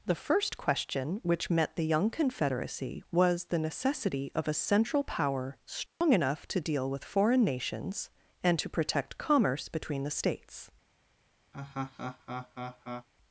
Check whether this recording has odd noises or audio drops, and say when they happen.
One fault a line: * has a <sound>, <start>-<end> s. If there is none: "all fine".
* has a dropout, 5.9-6.0 s
* has a laugh, 11.5-13.1 s